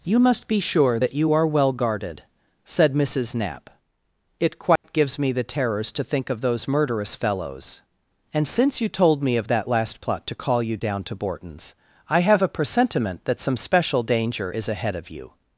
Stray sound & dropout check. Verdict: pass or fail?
fail